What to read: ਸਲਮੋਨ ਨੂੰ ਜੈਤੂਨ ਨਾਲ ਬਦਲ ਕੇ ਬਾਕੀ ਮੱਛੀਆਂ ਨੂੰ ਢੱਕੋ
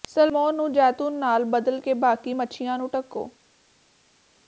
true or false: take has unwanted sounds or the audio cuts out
false